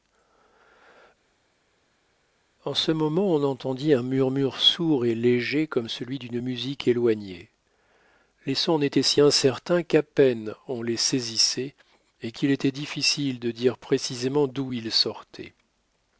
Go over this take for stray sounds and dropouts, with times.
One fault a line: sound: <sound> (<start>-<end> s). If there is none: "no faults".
no faults